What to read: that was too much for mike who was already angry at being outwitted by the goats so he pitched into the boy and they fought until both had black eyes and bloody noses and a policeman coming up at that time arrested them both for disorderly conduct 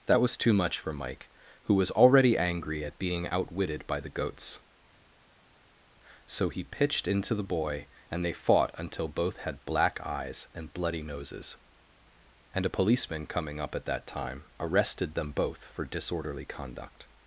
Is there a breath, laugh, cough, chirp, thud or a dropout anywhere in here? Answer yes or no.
no